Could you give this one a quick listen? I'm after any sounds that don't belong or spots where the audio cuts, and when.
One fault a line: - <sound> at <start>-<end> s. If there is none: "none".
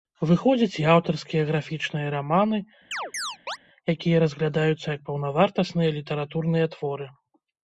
- chirp at 2.9-3.6 s